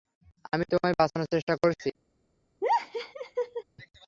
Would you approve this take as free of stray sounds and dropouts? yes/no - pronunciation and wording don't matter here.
no